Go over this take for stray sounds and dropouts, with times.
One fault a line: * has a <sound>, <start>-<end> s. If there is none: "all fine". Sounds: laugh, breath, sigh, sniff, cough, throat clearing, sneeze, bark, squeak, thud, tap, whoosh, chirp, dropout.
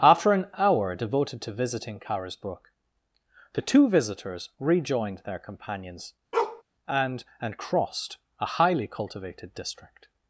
* has a bark, 6.3-6.6 s